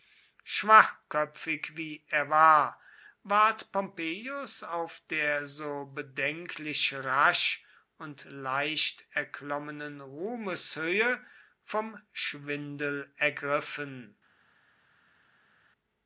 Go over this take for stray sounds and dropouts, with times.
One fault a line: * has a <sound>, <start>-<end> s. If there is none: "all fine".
all fine